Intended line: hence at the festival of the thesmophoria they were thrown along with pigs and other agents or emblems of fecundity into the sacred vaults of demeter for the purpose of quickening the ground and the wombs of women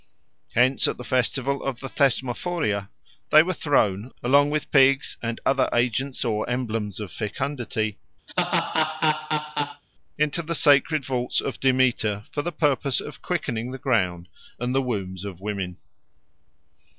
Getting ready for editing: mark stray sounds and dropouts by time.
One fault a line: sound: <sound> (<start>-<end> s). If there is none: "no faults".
sound: laugh (8.3-9.8 s)